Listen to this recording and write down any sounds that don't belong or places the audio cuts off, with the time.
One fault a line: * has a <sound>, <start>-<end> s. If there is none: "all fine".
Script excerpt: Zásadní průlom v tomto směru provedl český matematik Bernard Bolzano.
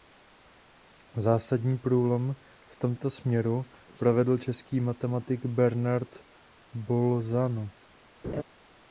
* has a laugh, 8.2-8.4 s